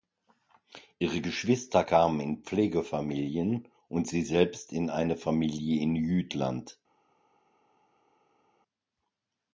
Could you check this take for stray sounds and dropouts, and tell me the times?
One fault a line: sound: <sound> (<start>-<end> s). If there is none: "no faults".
no faults